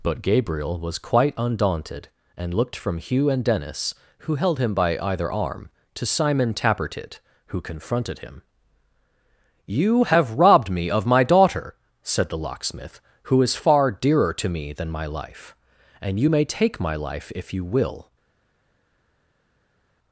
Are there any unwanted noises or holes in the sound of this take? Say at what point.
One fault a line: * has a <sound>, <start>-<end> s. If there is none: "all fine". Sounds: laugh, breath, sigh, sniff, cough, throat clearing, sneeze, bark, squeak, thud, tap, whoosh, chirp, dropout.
all fine